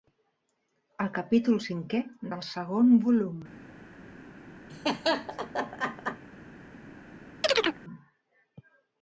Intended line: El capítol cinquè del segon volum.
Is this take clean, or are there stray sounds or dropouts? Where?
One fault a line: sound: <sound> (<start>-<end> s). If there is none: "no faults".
sound: laugh (4.7-6.2 s)
sound: chirp (7.4-7.8 s)